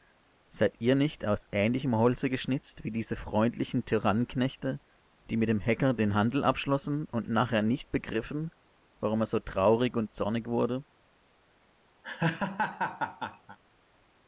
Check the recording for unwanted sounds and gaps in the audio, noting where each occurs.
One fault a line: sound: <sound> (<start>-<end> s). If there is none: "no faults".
sound: laugh (12.0-13.6 s)